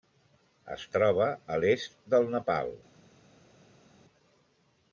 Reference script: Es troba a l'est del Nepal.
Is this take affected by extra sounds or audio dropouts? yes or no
no